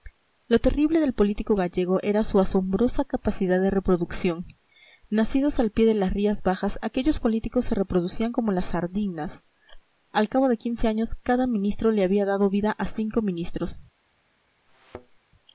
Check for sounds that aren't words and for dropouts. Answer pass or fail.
fail